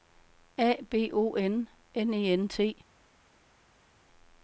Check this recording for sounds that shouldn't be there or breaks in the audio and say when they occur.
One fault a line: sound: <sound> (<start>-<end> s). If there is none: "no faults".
no faults